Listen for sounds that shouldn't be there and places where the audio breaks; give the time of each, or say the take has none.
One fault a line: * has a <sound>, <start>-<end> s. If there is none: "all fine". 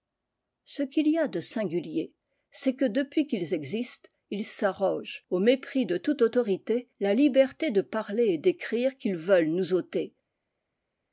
all fine